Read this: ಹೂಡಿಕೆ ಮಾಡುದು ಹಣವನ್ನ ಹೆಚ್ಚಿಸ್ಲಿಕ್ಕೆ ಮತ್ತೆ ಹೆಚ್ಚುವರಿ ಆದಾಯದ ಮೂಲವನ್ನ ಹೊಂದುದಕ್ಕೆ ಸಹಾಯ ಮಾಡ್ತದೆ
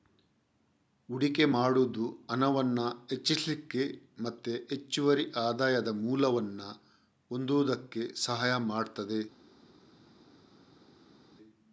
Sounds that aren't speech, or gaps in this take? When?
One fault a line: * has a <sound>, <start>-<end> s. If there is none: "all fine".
all fine